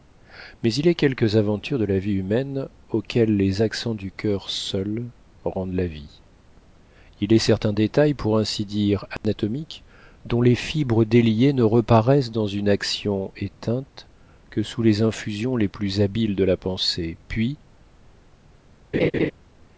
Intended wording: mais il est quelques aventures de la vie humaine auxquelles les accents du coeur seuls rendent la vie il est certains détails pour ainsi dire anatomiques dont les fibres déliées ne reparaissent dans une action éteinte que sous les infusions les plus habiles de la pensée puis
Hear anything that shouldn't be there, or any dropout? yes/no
yes